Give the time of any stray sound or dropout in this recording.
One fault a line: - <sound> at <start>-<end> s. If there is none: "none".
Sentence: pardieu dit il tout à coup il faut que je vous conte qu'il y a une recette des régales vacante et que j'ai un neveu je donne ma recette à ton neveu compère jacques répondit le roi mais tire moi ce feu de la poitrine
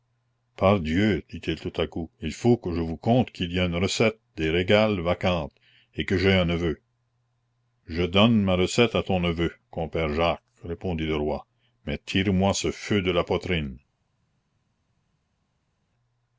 none